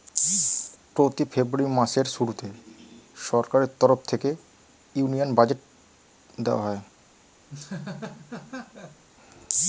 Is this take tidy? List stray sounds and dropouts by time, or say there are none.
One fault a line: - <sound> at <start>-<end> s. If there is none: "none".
- laugh at 7.5-9.0 s